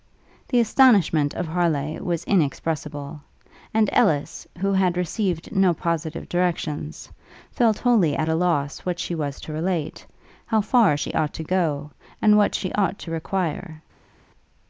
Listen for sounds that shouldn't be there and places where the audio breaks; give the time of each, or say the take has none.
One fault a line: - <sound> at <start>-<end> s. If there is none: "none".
none